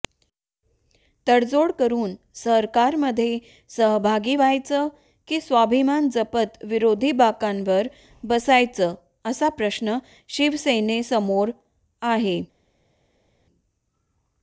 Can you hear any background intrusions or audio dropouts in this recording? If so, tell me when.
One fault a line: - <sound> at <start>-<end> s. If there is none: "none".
none